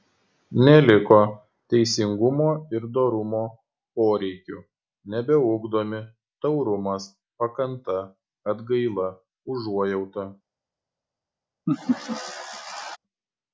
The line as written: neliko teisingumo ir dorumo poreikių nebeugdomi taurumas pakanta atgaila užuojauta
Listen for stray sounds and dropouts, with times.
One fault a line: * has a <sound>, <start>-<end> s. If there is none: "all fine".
* has a laugh, 11.7-13.0 s